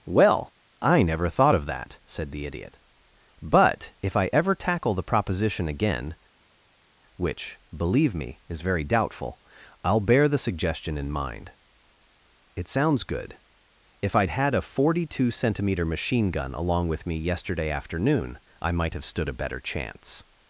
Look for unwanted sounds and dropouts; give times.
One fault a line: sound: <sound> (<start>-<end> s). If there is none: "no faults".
no faults